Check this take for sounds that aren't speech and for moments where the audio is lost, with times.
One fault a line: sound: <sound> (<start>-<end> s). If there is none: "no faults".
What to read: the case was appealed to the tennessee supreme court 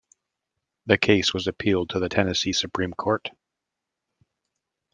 no faults